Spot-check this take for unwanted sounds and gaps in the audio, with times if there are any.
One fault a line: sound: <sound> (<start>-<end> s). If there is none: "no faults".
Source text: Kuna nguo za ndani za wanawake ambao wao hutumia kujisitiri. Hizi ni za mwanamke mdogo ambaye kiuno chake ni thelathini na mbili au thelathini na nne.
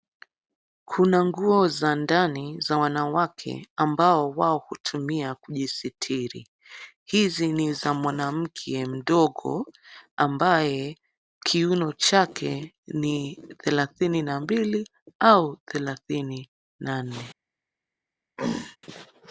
sound: throat clearing (18.4-18.8 s)